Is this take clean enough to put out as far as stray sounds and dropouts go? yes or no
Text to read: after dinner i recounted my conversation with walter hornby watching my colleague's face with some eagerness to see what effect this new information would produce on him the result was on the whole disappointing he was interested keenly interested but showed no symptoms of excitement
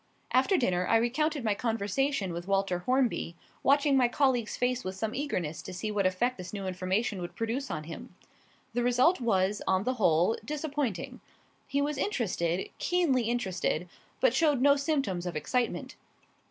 yes